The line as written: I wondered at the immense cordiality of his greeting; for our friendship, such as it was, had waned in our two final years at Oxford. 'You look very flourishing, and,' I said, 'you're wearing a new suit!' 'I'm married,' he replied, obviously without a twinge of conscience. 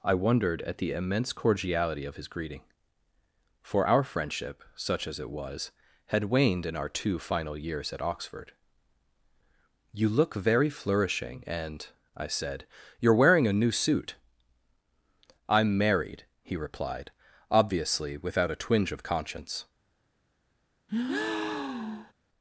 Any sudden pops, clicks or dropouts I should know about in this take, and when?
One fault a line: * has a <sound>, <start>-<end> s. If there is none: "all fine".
* has a breath, 20.9-22.1 s